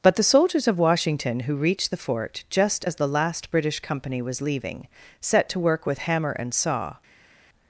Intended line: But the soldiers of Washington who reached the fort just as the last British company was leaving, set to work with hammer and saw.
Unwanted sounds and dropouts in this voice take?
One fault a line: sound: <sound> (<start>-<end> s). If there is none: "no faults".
no faults